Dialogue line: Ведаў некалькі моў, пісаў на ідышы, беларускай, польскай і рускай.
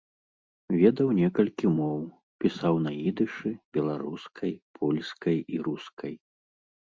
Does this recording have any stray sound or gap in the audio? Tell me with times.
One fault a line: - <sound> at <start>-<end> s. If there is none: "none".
none